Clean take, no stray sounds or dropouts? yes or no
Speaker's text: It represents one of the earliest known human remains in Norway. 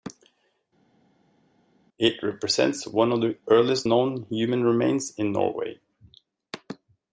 yes